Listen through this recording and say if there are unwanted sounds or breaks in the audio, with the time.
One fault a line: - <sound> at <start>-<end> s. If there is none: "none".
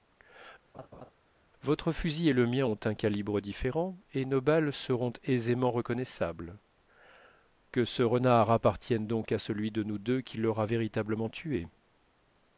- laugh at 0.7-1.1 s